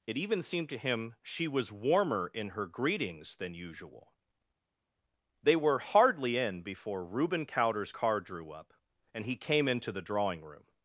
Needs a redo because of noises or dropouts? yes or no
no